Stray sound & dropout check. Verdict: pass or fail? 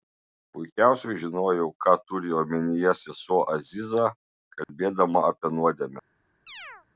fail